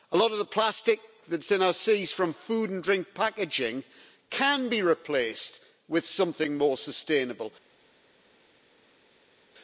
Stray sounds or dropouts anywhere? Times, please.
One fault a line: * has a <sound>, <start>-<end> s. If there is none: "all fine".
all fine